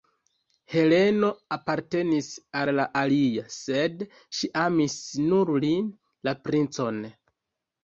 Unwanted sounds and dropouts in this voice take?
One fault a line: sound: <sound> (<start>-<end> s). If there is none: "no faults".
no faults